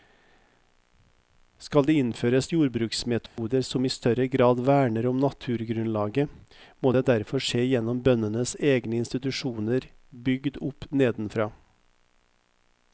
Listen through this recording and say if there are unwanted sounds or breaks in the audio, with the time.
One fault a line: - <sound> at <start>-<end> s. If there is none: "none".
- dropout at 3.3-3.4 s